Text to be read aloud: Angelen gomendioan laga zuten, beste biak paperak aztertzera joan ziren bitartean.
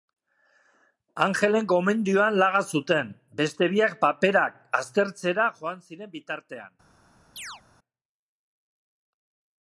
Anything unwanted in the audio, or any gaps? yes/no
yes